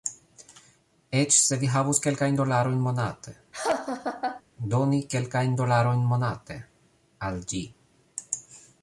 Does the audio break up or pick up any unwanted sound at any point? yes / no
yes